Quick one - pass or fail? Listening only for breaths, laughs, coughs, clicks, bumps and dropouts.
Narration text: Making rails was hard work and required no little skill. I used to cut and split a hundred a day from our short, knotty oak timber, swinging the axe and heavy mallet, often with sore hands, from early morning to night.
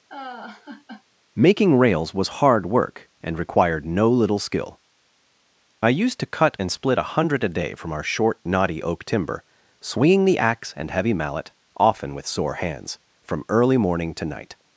fail